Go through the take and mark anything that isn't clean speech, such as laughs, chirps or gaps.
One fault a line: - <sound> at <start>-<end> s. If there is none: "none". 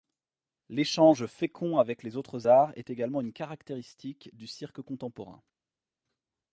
none